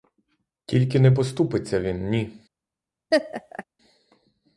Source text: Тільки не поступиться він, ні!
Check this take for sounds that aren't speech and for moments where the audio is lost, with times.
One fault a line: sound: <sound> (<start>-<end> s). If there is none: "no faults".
sound: laugh (3.1-3.6 s)